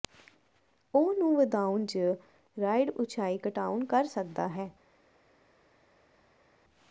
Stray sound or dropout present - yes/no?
no